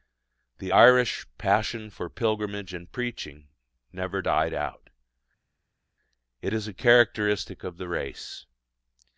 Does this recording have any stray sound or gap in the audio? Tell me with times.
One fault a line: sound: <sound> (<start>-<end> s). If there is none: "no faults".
no faults